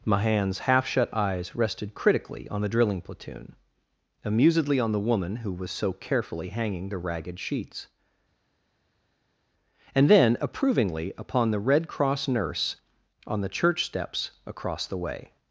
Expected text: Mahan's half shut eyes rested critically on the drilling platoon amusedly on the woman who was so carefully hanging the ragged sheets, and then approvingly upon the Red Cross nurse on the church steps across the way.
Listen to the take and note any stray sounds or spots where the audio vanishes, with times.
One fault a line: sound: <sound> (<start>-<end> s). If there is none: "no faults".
no faults